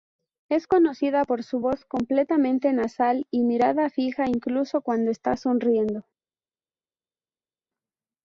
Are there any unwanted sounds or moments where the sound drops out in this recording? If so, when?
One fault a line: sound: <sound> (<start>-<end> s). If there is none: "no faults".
no faults